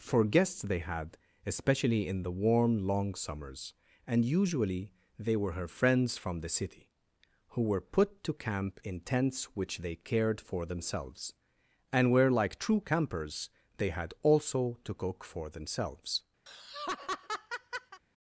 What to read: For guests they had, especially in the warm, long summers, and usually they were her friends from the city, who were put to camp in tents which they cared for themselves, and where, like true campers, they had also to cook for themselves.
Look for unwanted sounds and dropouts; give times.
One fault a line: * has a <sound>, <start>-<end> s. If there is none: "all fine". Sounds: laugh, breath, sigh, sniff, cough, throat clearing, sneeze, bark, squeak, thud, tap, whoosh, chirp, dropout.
* has a laugh, 16.5-18.0 s